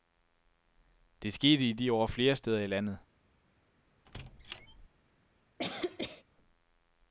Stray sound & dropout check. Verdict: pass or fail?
fail